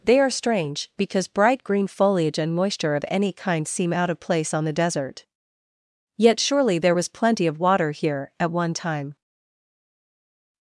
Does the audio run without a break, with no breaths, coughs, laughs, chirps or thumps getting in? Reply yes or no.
yes